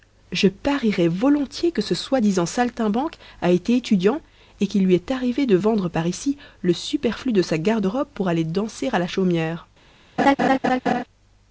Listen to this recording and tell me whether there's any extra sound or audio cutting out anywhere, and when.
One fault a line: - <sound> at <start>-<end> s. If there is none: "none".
- laugh at 10.2-11.0 s